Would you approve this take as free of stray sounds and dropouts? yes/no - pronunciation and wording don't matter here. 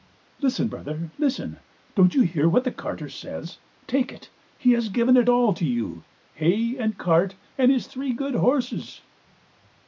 yes